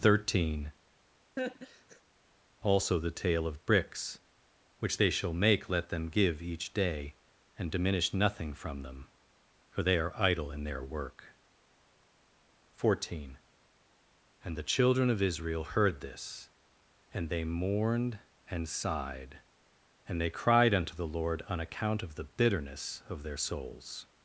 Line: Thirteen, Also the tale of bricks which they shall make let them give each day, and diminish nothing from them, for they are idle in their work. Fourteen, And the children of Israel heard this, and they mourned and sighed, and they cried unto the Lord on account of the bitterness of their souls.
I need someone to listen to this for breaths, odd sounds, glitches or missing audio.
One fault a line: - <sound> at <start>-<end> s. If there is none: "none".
- laugh at 1.4-2.0 s